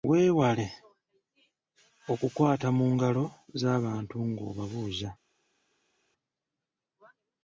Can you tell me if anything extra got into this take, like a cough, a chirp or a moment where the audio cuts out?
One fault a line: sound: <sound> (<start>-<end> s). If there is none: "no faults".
no faults